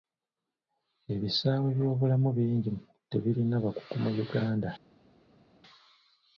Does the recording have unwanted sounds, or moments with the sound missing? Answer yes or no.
no